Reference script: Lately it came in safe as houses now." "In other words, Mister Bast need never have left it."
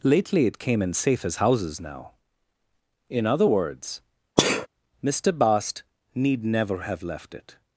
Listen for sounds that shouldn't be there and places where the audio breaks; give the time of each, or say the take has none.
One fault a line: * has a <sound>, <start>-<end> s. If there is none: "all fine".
* has a sneeze, 4.4-4.7 s